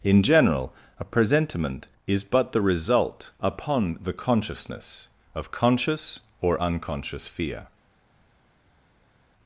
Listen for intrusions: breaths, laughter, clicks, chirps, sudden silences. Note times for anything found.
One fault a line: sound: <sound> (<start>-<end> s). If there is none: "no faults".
no faults